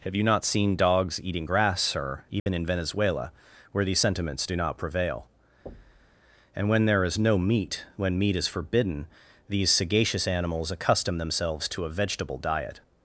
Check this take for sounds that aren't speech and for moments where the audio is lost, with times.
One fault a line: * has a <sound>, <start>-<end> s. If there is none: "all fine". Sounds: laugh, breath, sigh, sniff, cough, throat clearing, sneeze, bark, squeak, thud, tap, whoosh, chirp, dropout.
* has a dropout, 2.4-2.5 s
* has a thud, 5.7-6.2 s